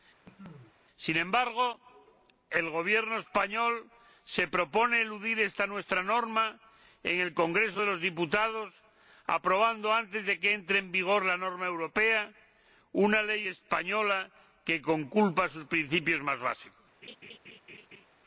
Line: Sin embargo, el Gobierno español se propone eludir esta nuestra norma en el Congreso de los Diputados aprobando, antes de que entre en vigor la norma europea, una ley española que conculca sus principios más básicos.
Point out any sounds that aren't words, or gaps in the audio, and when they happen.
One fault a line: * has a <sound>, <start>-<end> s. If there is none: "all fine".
* has a cough, 0.2-0.7 s
* has a laugh, 17.0-18.1 s